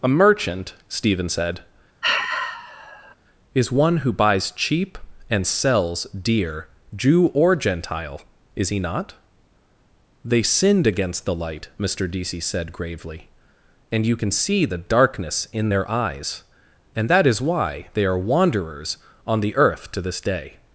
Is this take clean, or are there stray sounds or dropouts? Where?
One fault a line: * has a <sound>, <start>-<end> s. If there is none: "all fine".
* has a sigh, 2.0-3.1 s